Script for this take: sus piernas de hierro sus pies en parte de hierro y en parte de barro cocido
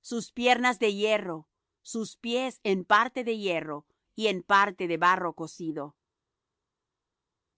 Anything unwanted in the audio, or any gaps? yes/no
no